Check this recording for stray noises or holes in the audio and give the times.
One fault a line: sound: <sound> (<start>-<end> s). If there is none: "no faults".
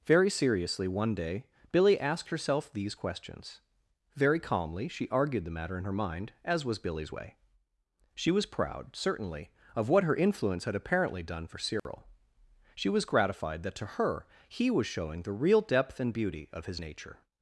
sound: dropout (11.8-11.9 s)